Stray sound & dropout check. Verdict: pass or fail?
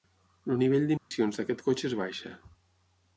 fail